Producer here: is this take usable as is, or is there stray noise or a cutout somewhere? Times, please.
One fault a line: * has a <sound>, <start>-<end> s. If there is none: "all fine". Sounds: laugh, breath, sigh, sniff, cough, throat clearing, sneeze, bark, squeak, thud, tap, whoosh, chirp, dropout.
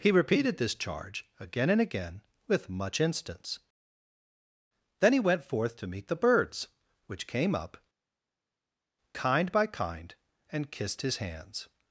all fine